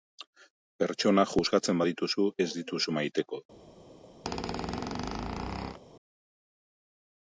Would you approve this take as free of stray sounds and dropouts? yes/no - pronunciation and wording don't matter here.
no